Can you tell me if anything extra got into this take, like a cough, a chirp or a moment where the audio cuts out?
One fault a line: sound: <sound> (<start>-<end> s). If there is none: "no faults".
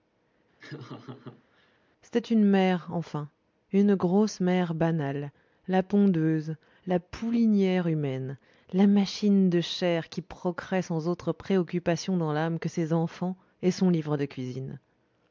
sound: laugh (0.6-1.8 s)